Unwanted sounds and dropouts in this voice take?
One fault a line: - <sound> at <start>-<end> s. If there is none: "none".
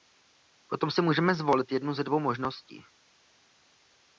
none